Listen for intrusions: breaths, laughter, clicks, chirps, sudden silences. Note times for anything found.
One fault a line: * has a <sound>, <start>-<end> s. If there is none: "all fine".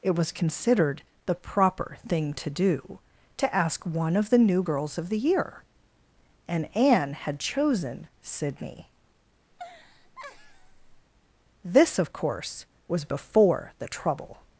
* has a laugh, 9.5-11.1 s